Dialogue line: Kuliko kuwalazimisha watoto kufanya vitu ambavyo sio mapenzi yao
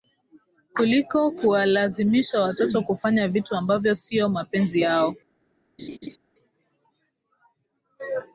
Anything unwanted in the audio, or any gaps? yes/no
yes